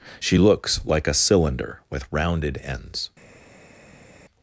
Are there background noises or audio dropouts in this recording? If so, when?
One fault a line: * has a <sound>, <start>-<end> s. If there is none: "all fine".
all fine